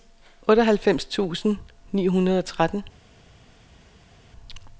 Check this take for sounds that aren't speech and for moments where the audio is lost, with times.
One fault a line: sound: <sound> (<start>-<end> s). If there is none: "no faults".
no faults